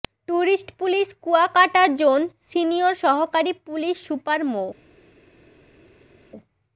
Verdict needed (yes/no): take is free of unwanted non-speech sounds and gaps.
yes